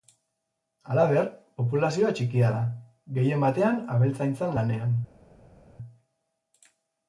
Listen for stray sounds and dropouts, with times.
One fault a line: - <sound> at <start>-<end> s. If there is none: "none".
none